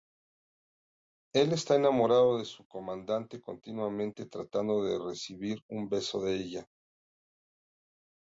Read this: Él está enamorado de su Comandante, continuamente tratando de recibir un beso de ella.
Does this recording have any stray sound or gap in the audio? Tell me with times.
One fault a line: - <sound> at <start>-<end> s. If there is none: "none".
none